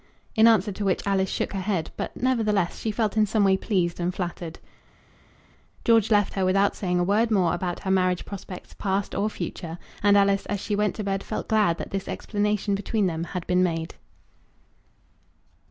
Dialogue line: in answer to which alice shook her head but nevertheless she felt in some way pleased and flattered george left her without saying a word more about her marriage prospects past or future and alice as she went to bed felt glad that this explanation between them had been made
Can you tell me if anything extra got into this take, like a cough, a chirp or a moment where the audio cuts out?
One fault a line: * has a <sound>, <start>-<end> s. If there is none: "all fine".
all fine